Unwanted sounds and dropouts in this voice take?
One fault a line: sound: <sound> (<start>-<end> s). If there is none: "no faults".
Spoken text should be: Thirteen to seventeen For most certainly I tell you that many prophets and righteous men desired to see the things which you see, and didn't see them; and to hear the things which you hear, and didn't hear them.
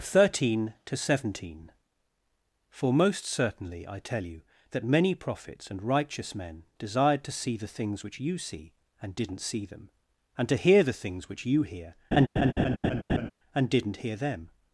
sound: laugh (12.1-13.3 s)